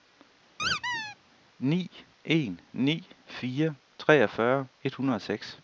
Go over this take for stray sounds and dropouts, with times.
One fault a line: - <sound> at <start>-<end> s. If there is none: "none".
- squeak at 0.6-1.2 s